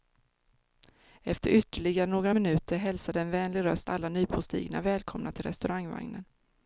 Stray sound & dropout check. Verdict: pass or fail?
pass